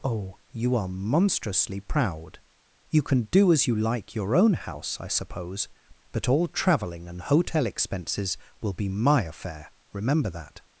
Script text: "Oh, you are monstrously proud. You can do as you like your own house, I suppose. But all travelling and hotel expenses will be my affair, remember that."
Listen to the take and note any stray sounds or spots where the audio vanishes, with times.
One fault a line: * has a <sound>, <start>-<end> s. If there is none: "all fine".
all fine